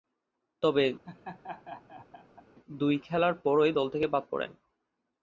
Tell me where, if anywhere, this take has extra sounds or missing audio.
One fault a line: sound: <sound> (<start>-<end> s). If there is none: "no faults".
sound: laugh (1.0-2.4 s)